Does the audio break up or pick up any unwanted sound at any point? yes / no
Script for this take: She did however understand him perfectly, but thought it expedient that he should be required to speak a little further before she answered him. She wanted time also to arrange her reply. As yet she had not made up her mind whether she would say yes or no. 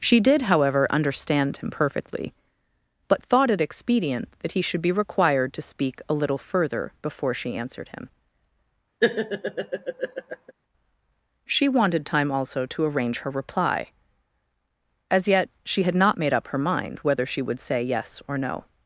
yes